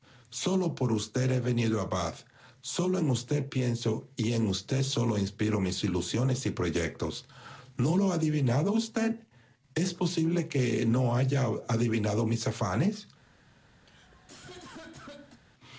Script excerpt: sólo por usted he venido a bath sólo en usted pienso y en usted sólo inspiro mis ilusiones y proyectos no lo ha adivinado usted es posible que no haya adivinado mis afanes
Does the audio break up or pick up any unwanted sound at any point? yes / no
yes